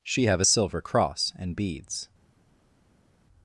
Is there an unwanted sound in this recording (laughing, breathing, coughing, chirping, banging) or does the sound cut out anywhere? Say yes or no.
no